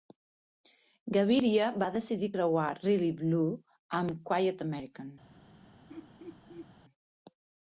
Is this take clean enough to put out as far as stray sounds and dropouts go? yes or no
no